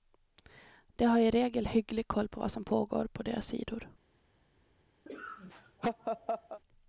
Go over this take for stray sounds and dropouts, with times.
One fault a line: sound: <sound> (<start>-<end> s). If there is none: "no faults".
sound: laugh (5.1-6.6 s)